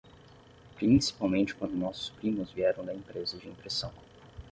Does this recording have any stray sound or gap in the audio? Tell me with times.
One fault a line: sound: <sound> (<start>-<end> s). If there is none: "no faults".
no faults